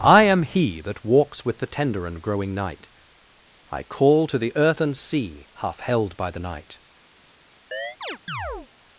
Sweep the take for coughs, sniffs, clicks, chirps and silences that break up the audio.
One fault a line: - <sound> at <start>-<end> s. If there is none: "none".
- chirp at 7.7-8.7 s